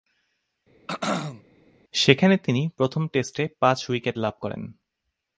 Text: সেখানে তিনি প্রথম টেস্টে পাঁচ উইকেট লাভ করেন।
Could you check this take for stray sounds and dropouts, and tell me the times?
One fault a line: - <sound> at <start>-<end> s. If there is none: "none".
- throat clearing at 0.9-1.4 s